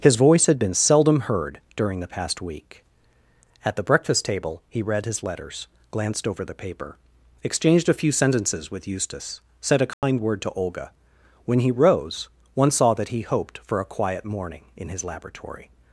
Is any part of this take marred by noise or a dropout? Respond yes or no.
yes